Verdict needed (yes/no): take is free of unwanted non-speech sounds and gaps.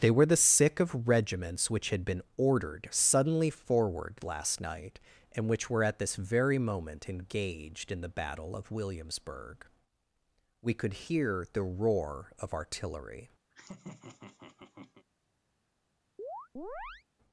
no